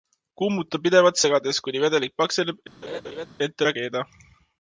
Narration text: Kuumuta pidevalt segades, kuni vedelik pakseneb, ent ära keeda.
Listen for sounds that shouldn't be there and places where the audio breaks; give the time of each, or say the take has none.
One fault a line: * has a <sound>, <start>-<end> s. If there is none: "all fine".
* has a laugh, 2.8-3.3 s